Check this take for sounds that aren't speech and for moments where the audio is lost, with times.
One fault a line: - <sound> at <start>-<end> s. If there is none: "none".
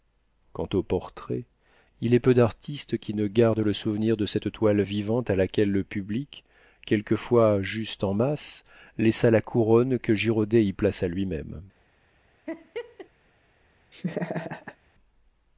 - laugh at 12.5-13.1 s
- laugh at 13.9-14.8 s